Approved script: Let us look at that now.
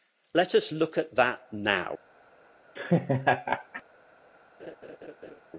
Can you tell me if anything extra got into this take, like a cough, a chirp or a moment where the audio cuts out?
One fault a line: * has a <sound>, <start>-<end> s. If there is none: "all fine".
* has a laugh, 2.8-3.8 s
* has a laugh, 4.6-5.4 s